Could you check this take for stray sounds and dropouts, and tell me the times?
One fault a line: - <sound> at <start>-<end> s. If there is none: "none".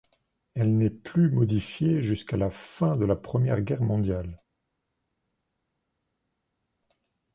none